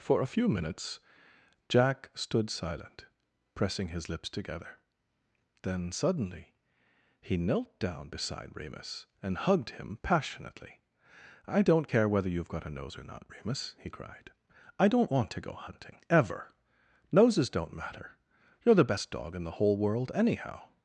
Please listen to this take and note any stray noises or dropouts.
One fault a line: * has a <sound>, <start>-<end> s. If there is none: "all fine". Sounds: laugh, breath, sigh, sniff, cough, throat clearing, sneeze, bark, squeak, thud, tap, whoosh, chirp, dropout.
all fine